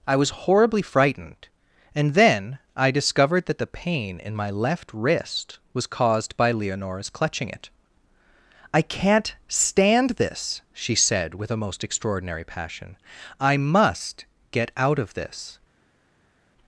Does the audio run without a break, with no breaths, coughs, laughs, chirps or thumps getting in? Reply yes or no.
yes